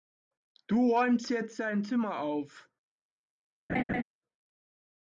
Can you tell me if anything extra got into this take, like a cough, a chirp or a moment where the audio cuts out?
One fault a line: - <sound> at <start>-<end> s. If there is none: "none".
- laugh at 3.7-4.0 s